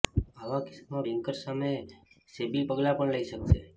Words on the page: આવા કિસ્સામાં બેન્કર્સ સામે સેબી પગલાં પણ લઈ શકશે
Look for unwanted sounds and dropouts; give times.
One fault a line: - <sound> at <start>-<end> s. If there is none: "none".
none